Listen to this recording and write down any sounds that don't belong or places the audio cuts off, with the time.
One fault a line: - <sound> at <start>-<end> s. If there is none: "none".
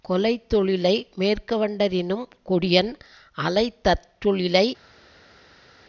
none